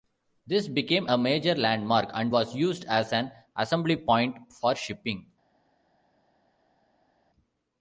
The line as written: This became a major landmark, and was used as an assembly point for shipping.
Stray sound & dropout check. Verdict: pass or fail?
pass